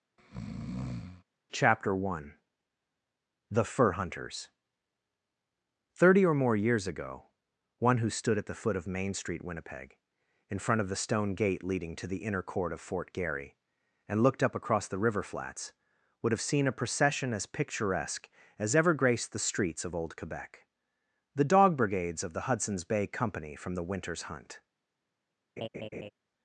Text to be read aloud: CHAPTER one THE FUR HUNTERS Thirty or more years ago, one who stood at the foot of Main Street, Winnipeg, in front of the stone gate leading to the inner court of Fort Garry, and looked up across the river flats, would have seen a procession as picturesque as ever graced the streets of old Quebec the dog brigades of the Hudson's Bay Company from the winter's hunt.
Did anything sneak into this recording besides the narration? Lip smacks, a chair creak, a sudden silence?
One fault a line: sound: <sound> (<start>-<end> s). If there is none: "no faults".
sound: breath (0.2-1.2 s)
sound: laugh (25.6-26.1 s)